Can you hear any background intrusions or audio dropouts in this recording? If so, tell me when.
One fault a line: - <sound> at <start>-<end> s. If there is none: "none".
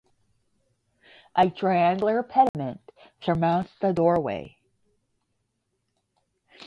- dropout at 2.5-2.5 s